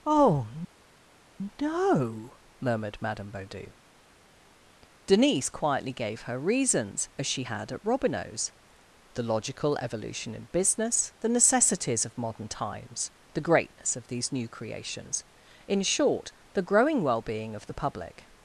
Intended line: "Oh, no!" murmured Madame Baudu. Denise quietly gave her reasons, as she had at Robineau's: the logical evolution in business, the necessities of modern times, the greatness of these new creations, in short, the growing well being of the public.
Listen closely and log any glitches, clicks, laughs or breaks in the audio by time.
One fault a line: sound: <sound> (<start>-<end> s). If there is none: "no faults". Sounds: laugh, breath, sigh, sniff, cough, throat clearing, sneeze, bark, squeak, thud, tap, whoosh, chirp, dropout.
no faults